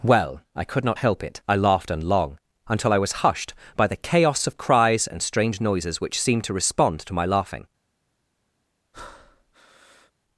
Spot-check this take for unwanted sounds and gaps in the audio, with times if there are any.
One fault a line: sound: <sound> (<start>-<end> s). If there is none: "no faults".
sound: breath (8.9-10.1 s)